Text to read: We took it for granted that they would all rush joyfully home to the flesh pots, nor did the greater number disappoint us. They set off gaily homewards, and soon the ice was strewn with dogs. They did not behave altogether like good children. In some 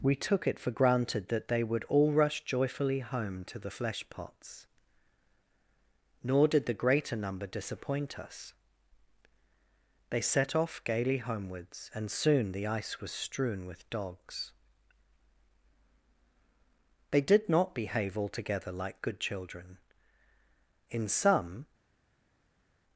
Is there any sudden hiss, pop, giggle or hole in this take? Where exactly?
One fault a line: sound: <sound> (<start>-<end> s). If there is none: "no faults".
no faults